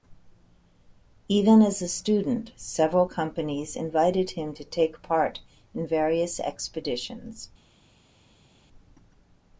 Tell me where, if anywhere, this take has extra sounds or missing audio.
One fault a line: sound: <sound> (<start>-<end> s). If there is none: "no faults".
no faults